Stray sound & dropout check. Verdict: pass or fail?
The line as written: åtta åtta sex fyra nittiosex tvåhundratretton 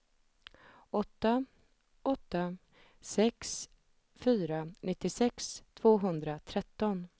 pass